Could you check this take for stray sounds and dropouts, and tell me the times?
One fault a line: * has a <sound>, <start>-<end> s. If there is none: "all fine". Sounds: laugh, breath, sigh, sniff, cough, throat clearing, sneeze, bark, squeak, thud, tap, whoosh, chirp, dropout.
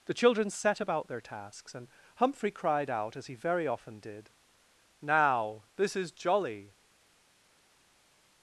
all fine